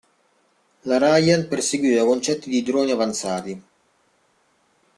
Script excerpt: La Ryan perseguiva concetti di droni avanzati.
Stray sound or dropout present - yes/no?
no